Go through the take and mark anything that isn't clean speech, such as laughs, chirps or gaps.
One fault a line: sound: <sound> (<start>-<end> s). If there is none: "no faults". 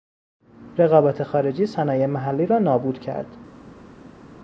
no faults